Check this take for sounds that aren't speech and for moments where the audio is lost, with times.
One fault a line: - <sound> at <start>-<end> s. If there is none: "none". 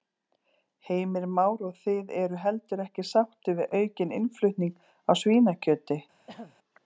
- throat clearing at 6.3-6.6 s